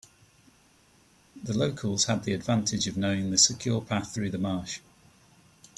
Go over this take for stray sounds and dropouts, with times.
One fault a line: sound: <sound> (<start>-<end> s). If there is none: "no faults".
no faults